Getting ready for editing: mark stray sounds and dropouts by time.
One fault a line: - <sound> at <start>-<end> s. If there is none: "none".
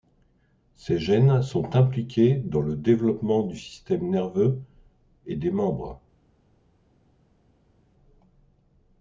none